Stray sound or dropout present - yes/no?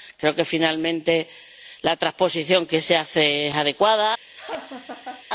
yes